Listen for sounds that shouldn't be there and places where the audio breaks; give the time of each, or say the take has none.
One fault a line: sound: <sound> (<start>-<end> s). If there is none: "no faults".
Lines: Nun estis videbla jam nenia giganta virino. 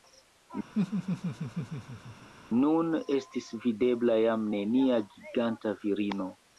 sound: laugh (0.7-2.3 s)